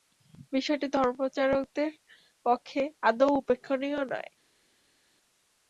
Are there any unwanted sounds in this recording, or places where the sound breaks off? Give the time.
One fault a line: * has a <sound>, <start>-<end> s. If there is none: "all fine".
all fine